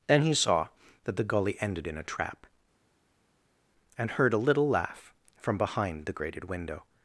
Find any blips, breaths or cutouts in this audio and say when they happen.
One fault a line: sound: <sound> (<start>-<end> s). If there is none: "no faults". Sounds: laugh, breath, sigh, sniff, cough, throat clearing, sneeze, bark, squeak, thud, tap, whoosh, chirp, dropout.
no faults